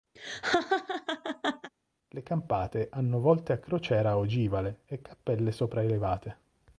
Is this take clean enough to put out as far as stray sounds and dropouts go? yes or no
no